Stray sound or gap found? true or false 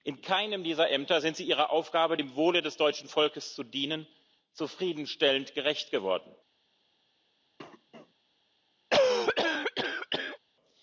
true